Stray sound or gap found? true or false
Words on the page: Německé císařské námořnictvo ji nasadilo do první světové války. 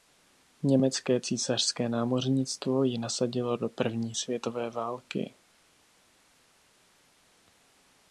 false